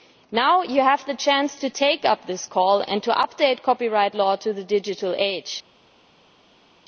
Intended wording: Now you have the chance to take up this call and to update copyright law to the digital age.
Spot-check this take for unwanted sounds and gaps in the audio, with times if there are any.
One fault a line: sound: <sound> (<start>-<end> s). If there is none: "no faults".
no faults